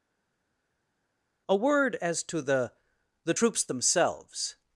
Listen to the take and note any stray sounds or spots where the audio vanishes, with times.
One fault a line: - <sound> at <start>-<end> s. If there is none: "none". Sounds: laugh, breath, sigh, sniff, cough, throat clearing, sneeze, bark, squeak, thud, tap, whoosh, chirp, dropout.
none